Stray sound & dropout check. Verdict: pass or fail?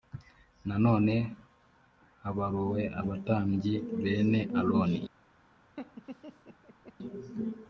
fail